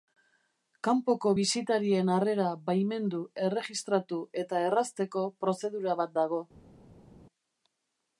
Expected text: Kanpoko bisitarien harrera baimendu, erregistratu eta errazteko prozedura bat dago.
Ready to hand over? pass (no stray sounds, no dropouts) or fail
pass